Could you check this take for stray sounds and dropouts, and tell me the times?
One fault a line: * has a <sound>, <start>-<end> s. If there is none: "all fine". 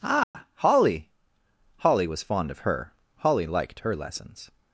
* has a dropout, 0.2-0.3 s